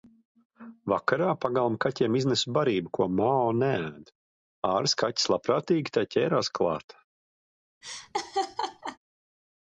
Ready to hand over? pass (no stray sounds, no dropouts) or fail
fail